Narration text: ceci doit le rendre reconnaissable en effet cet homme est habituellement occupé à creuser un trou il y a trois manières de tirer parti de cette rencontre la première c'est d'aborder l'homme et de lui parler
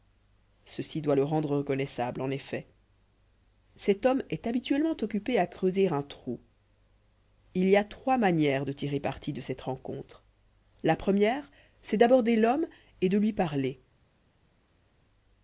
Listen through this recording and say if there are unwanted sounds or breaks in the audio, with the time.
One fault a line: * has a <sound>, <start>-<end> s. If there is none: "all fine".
all fine